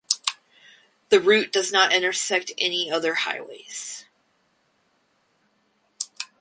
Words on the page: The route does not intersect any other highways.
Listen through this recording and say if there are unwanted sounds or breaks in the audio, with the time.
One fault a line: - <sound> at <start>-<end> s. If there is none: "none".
none